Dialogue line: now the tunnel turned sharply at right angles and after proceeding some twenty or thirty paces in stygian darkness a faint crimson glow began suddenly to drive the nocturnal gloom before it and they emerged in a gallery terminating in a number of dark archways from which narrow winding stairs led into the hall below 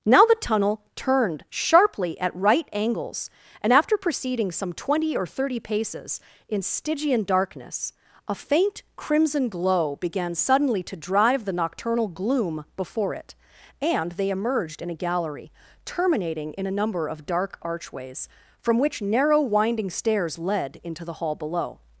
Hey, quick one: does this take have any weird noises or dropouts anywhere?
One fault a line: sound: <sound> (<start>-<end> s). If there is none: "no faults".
no faults